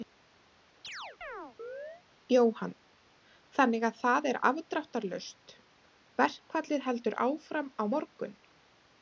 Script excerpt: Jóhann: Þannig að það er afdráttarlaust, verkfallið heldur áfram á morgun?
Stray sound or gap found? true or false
true